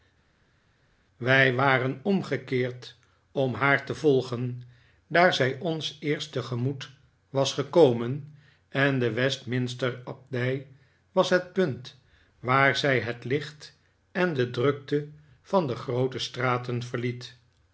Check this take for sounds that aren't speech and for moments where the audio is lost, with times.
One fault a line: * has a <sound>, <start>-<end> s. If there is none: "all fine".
all fine